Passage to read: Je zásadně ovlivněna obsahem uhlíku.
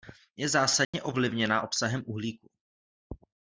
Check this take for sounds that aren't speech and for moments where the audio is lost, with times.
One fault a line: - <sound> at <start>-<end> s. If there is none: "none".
- dropout at 0.8-0.9 s